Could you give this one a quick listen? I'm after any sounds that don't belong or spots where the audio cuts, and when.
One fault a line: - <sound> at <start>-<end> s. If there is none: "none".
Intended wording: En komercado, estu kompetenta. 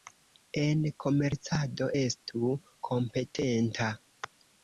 none